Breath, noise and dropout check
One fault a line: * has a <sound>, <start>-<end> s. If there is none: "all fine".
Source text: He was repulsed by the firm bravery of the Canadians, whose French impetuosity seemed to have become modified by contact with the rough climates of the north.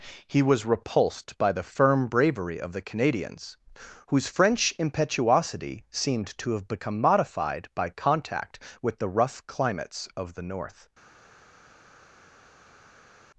all fine